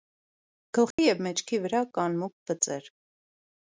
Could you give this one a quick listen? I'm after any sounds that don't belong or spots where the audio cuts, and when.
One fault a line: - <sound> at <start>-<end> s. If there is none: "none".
- dropout at 0.9-1.0 s